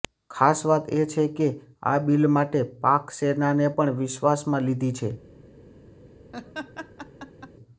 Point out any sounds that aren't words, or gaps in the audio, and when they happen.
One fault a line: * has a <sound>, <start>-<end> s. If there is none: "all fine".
* has a laugh, 6.3-7.5 s